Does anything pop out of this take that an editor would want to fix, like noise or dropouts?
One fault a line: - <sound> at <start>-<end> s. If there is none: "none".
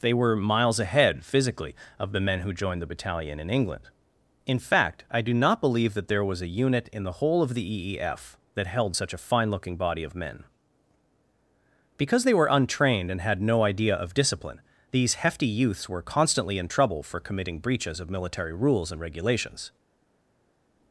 none